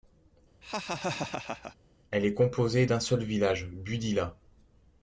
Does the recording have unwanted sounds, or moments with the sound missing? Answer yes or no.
yes